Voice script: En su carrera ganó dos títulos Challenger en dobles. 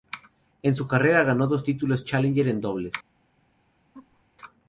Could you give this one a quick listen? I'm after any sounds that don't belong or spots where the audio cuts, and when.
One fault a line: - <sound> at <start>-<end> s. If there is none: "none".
- laugh at 3.9-4.2 s